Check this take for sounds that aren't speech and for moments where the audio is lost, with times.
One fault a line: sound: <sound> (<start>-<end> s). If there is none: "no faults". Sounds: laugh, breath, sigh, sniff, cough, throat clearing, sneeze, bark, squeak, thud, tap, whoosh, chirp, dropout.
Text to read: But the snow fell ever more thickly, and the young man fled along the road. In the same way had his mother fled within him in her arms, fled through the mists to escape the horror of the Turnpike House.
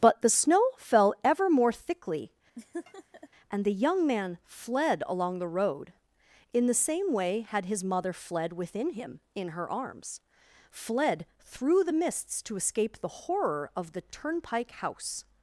sound: laugh (2.6-3.3 s)